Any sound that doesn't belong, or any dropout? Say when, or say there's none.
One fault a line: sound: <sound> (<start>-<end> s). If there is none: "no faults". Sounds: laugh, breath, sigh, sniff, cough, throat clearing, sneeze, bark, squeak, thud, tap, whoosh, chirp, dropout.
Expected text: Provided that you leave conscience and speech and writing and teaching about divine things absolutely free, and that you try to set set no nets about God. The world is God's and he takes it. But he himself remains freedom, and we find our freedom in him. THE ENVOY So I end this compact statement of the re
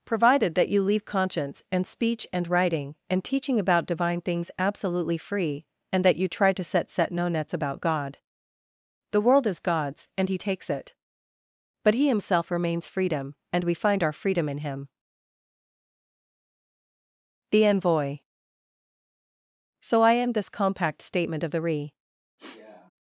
sound: sniff (22.4-22.9 s)